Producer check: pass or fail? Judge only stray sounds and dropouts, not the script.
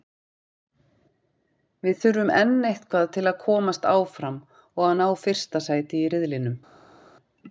pass